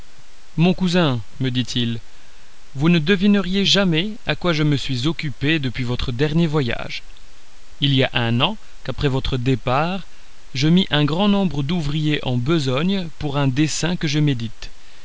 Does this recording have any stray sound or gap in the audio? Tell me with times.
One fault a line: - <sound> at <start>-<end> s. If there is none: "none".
none